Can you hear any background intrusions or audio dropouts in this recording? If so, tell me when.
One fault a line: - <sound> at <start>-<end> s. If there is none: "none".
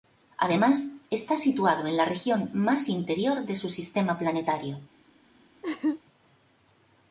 - laugh at 5.6-6.0 s